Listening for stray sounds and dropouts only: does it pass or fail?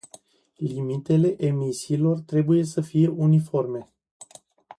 pass